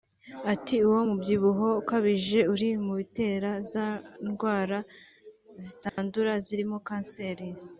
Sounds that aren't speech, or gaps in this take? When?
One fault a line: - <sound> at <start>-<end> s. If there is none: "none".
- dropout at 5.9-6.0 s